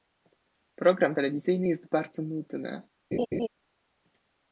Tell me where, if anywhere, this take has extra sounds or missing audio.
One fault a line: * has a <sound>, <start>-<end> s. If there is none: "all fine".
* has a laugh, 3.1-3.5 s